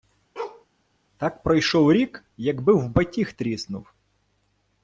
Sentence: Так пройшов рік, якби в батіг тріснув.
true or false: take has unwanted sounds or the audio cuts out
true